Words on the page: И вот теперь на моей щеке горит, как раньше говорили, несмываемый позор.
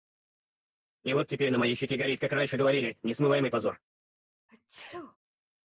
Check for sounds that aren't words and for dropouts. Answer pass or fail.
fail